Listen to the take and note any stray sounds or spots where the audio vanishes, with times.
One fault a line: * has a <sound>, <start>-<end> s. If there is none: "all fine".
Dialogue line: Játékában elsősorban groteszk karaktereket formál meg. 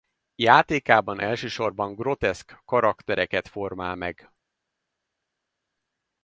all fine